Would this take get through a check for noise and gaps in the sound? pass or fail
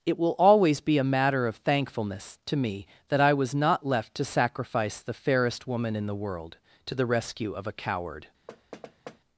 fail